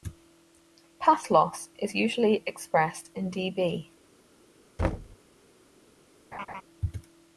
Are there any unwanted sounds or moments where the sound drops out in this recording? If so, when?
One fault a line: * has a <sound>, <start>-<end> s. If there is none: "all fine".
* has a thud, 4.8-5.2 s
* has a laugh, 6.3-6.6 s